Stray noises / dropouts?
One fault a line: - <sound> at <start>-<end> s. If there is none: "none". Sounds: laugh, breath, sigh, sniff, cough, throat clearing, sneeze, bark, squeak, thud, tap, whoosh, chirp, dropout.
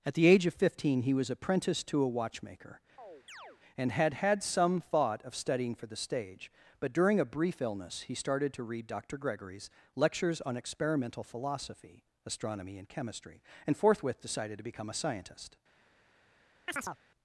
- chirp at 3.0-3.6 s
- chirp at 16.7-17.0 s